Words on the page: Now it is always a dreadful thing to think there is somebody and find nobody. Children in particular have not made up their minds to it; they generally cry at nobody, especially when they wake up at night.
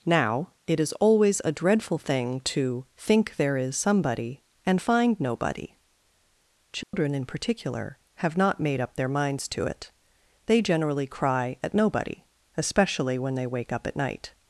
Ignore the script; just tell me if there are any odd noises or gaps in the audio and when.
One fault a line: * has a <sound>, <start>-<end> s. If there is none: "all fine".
* has a dropout, 6.8-6.9 s